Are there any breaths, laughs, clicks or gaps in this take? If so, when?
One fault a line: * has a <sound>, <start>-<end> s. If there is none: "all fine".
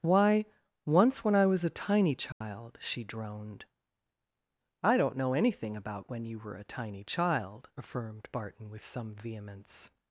* has a dropout, 2.3-2.4 s